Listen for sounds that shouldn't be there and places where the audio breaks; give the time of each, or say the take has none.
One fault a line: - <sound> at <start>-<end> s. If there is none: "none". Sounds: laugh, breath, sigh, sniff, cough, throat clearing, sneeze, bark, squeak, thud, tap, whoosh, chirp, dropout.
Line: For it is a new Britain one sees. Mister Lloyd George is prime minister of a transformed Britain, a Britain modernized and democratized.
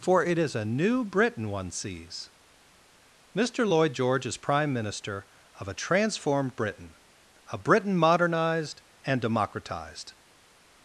none